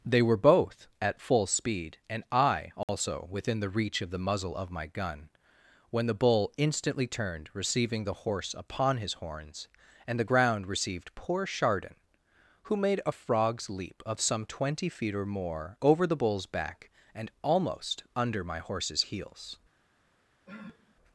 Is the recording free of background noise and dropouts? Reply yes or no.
no